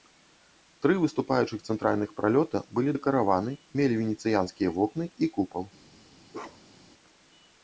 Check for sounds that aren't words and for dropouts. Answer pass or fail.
fail